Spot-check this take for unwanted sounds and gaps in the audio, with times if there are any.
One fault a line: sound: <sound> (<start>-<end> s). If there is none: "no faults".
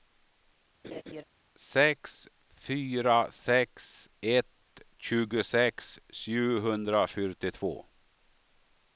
sound: laugh (0.8-1.2 s)